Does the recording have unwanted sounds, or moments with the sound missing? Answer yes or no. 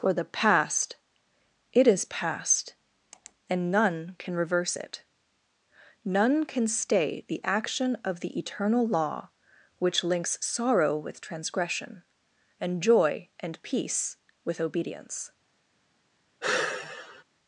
yes